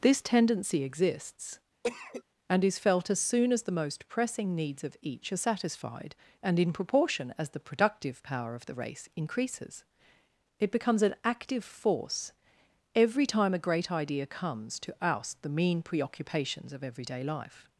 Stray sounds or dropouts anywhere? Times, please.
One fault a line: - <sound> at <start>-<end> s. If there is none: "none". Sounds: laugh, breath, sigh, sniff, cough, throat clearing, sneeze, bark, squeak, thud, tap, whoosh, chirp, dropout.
- cough at 1.8-2.2 s